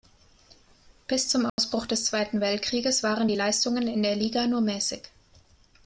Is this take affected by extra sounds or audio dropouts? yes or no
yes